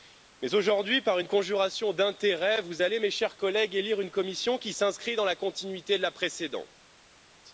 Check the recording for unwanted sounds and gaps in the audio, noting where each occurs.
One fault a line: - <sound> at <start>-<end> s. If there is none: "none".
none